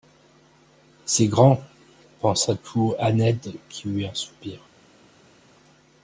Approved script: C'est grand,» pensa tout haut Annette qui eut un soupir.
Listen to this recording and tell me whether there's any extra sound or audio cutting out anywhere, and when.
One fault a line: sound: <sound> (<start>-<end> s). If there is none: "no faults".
no faults